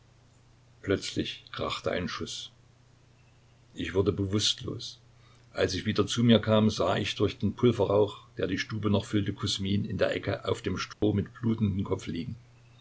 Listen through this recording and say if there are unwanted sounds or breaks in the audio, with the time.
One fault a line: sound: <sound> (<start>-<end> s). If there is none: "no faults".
sound: dropout (10.9-11.0 s)